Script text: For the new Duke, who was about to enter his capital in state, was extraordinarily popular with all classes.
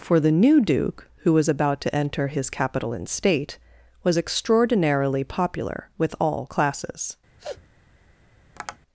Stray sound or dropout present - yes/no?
yes